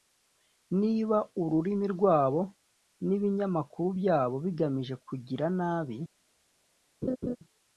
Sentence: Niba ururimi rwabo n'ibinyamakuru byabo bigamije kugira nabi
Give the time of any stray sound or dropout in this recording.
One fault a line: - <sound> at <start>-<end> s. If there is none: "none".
- laugh at 7.0-7.4 s